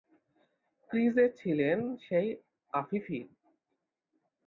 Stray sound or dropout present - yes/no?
no